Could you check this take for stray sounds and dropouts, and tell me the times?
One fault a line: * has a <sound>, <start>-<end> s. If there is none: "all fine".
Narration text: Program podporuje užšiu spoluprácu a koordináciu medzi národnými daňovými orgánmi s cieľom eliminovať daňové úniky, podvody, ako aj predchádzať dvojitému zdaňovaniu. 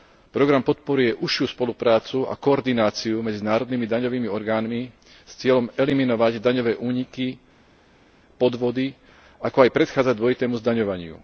all fine